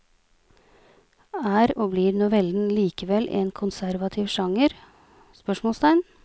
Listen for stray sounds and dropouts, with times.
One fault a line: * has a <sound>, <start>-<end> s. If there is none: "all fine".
all fine